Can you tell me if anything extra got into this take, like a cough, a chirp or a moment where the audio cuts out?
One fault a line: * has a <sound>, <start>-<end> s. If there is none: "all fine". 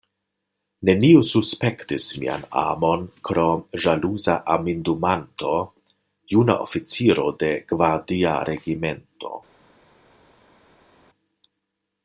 all fine